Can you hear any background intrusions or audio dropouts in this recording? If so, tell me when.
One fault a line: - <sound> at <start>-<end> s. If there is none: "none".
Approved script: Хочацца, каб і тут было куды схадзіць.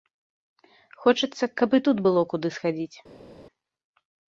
none